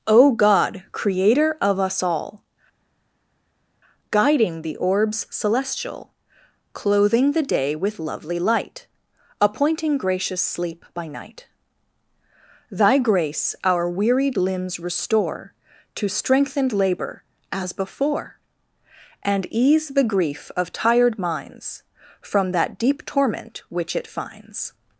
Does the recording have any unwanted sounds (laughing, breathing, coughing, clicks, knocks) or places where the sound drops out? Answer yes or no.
no